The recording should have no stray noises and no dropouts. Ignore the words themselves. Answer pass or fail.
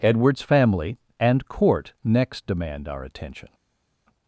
pass